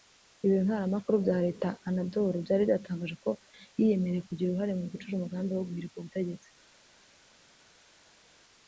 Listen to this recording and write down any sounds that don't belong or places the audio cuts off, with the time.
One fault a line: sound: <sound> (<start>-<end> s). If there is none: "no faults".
no faults